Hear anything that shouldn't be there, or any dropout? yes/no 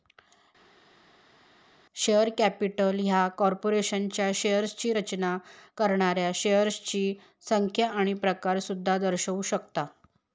no